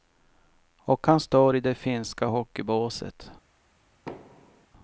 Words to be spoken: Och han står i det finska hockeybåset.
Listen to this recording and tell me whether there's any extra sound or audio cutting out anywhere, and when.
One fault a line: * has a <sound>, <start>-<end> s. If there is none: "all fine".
* has a thud, 4.1-4.7 s